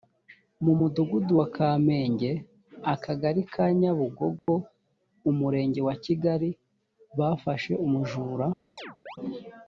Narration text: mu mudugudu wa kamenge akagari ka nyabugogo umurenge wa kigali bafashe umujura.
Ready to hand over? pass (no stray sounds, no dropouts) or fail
fail